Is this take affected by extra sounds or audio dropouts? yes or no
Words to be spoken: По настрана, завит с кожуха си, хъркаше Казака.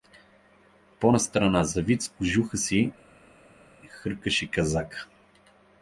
no